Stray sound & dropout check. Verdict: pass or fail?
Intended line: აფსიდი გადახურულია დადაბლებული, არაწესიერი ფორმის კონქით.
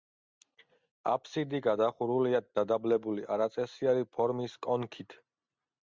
pass